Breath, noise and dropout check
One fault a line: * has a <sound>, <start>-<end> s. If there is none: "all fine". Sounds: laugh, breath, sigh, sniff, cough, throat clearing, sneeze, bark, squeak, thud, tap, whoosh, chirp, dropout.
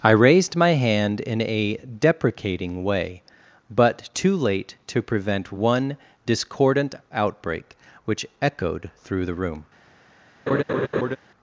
* has a laugh, 10.5-11.2 s